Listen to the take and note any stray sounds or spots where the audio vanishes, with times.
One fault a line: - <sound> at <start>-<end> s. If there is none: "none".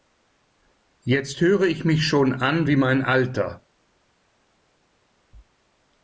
none